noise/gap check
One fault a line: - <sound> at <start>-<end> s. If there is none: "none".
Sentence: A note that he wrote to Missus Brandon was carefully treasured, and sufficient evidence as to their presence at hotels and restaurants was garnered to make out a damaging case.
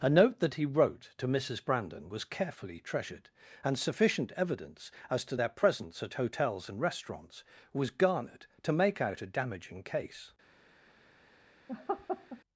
- laugh at 11.7-12.4 s